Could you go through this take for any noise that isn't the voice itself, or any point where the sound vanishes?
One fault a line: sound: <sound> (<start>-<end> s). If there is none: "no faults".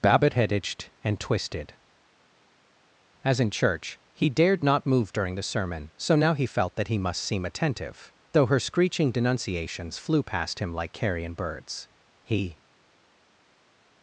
no faults